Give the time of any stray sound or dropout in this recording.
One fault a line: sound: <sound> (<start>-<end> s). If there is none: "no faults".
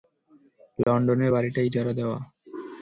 sound: dropout (0.8-0.9 s)